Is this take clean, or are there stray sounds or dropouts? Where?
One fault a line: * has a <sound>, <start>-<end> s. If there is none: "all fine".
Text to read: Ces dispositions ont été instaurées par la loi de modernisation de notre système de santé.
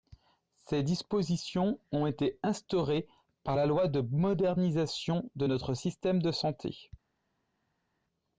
all fine